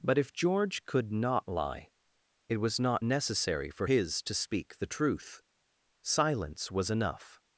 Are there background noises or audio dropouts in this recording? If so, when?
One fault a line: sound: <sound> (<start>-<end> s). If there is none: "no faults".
no faults